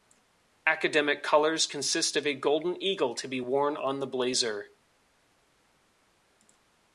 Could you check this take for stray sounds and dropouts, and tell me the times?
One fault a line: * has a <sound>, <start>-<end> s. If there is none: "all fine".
all fine